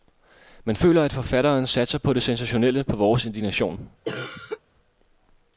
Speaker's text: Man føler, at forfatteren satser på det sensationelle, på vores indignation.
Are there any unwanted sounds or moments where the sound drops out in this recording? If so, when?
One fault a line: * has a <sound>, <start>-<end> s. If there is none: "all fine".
* has a cough, 4.0-4.6 s